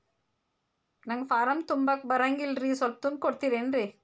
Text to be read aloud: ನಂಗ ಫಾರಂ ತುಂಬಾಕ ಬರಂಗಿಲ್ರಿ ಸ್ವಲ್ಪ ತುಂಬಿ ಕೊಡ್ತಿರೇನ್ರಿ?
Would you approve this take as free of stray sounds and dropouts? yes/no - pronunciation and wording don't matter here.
yes